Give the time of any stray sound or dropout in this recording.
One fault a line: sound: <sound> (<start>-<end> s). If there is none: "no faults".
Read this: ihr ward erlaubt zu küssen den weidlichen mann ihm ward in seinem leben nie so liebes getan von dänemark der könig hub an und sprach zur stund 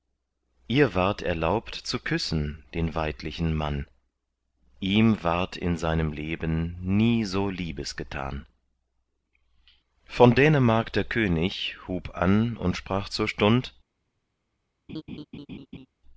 sound: laugh (14.9-15.9 s)